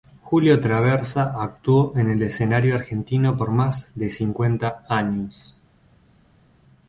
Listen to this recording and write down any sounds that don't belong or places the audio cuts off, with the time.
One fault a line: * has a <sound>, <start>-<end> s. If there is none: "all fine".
all fine